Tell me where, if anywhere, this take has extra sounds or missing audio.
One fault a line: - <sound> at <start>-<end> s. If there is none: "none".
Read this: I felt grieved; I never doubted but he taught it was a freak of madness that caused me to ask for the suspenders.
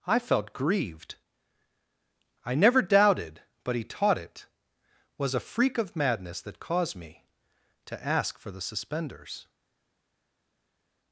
none